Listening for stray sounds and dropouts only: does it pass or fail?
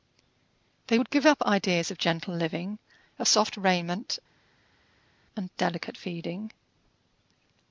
pass